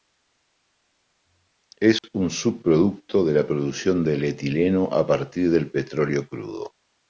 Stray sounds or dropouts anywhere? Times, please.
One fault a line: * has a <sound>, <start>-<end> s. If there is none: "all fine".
* has a dropout, 2.0-2.0 s